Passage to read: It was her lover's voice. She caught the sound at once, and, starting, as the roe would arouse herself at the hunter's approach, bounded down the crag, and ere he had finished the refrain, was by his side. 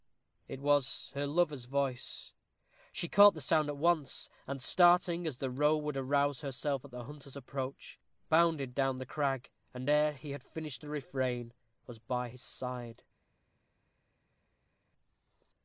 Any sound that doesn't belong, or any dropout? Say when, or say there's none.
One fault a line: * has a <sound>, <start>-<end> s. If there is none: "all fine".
all fine